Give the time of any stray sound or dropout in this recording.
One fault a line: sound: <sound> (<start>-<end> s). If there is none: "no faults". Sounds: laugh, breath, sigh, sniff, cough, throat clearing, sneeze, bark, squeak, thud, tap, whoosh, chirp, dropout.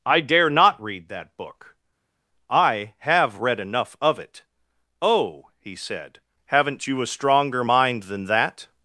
no faults